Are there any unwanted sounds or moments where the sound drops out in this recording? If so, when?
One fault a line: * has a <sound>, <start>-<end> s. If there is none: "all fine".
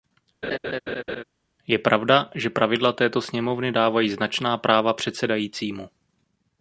* has a laugh, 0.4-1.2 s